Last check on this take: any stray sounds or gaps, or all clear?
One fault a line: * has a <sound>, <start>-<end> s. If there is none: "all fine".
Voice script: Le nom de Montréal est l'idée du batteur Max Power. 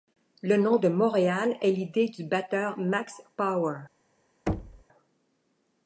* has a thud, 4.5-4.8 s